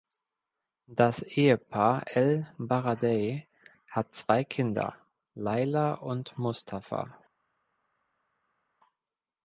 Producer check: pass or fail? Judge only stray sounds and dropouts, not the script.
pass